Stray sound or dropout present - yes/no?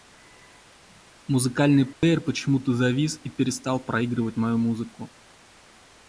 yes